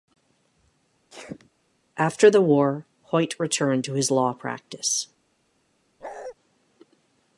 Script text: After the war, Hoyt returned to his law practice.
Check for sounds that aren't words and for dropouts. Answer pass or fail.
fail